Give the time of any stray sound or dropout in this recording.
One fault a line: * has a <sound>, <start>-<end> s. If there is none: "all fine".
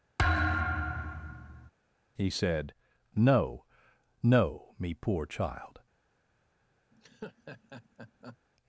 * has a thud, 0.2-1.7 s
* has a laugh, 6.9-8.4 s